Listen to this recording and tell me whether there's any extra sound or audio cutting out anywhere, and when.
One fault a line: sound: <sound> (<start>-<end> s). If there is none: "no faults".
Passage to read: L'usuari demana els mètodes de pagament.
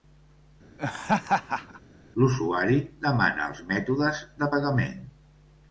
sound: laugh (0.8-1.8 s)